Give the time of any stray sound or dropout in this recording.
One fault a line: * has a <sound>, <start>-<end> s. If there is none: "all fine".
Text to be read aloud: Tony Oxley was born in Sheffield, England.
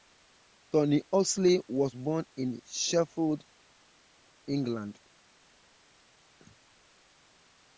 all fine